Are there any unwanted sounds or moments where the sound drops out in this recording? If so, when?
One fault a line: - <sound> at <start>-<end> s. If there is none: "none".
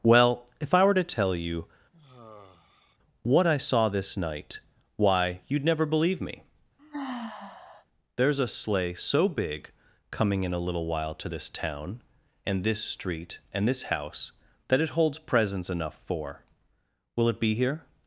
- sigh at 1.9-3.0 s
- sigh at 6.8-7.9 s